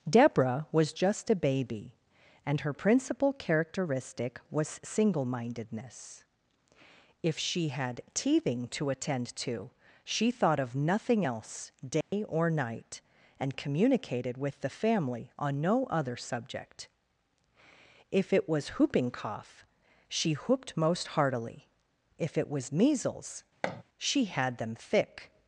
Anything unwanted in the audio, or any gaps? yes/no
yes